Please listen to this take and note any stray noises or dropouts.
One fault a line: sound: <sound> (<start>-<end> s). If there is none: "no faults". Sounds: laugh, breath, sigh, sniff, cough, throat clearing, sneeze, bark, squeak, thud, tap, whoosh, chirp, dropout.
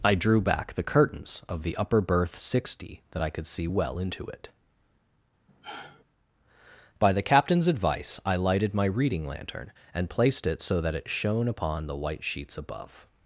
sound: sigh (5.5-6.0 s)